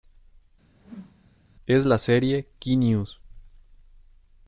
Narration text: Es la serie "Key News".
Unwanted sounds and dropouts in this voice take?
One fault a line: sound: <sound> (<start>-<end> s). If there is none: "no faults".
sound: whoosh (0.7-1.3 s)